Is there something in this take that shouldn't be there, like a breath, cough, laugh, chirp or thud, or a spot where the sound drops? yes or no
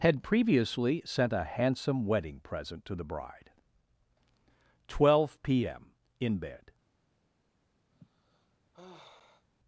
yes